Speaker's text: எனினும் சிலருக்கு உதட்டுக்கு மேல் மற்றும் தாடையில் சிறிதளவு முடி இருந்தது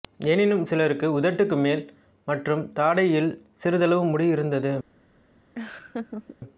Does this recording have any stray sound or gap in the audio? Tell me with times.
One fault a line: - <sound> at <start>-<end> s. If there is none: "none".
- laugh at 5.6-6.4 s